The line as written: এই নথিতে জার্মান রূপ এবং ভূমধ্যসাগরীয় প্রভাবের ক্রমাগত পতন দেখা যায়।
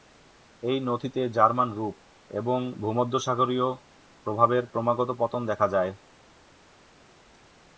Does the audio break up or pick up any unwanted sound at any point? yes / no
no